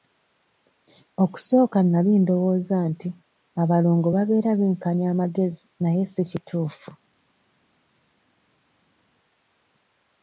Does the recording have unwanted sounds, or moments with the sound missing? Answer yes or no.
no